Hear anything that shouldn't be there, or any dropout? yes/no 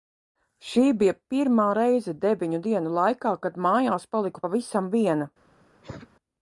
yes